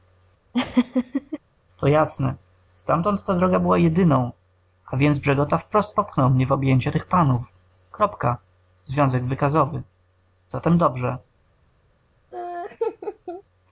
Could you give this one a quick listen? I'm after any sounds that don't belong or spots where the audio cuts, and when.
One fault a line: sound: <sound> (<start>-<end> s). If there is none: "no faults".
sound: laugh (0.5-1.4 s)
sound: laugh (12.3-13.4 s)